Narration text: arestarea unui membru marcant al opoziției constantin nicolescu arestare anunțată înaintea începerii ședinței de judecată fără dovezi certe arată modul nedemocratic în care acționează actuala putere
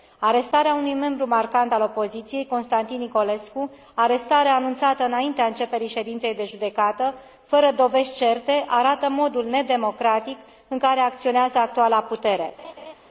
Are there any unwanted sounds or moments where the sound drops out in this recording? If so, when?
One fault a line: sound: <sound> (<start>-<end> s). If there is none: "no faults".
sound: laugh (12.6-13.0 s)